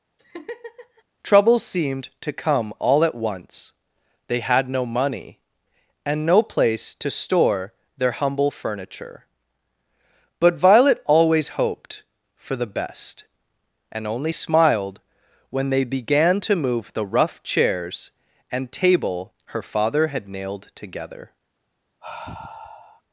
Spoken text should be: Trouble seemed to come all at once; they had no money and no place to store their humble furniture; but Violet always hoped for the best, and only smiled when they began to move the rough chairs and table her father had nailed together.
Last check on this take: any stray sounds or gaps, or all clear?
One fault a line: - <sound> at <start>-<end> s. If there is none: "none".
- laugh at 0.2-1.0 s
- sigh at 22.0-23.0 s